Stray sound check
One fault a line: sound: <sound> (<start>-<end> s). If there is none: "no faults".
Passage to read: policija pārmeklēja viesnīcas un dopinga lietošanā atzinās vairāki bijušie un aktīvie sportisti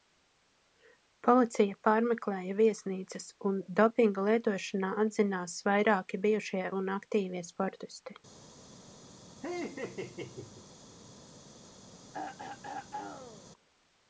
sound: laugh (9.4-10.7 s)
sound: throat clearing (12.1-13.5 s)